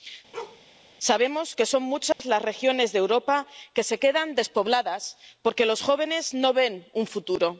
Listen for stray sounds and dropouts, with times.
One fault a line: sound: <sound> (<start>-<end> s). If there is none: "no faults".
sound: bark (0.3-0.6 s)
sound: dropout (2.1-2.2 s)